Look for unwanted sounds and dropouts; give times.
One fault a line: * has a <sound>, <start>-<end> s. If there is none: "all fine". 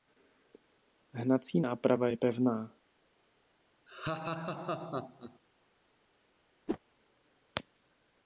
* has a laugh, 3.9-5.4 s
* has a whoosh, 6.7-6.8 s